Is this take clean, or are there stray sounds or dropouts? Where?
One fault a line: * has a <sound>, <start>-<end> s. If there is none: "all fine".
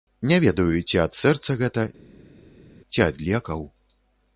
all fine